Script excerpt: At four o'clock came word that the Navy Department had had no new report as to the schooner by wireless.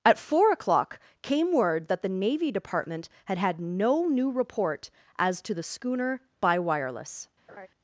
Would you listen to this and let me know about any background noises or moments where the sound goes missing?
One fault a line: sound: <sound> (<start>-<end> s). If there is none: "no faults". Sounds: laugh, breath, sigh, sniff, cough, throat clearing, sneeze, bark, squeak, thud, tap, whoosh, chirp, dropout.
sound: laugh (7.5-7.7 s)